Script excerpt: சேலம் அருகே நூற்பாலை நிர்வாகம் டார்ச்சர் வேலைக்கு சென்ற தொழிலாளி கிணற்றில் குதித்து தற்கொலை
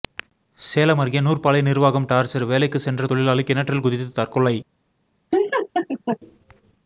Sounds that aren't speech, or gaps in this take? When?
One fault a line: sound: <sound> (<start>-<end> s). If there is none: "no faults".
sound: laugh (5.3-6.2 s)